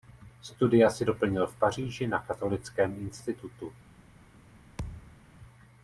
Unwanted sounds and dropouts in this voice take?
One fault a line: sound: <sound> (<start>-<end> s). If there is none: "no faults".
sound: thud (4.8-5.2 s)